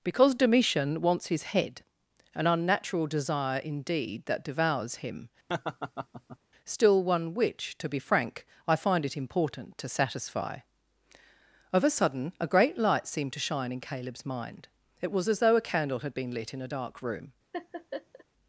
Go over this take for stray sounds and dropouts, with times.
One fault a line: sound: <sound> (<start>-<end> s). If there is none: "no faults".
sound: laugh (5.5-6.4 s)
sound: laugh (17.5-18.2 s)